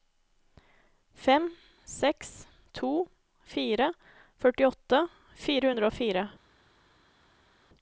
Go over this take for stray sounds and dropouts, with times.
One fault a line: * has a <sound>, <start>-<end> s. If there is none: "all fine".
all fine